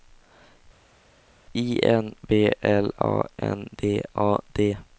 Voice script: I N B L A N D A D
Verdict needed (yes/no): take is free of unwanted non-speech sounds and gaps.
yes